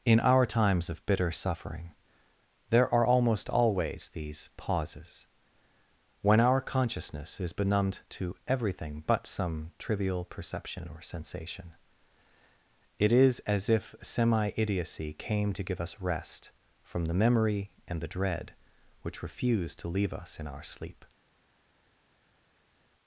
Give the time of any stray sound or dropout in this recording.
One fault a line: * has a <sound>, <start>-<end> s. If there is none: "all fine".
all fine